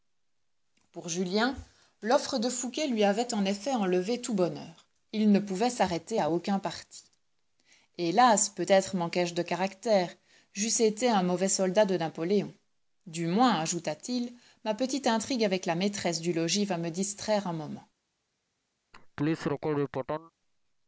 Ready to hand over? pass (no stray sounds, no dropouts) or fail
fail